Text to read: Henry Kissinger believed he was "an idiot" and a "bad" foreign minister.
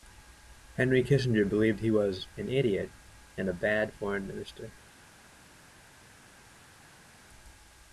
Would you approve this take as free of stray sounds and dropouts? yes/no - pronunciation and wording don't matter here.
yes